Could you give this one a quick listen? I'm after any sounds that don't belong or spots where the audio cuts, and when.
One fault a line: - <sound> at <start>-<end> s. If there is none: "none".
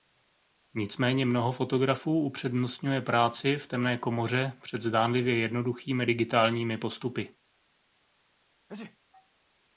- sneeze at 8.7-9.0 s